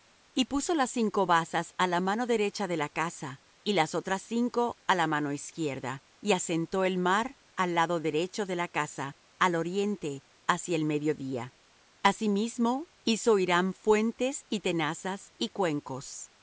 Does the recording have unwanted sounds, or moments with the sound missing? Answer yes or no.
no